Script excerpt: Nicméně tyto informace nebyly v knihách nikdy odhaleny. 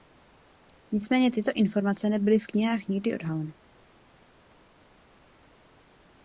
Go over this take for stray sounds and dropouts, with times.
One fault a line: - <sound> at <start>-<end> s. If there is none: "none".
none